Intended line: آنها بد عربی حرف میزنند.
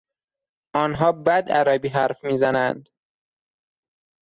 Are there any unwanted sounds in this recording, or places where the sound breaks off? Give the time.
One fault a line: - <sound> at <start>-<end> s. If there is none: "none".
none